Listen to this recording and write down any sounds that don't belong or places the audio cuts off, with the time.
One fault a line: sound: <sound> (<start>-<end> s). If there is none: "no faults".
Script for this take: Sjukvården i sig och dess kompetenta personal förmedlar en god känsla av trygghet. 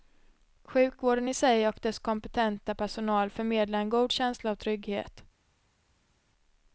no faults